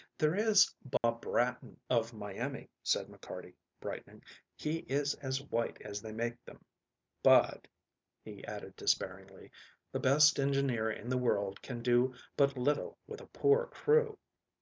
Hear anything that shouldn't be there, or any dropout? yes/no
yes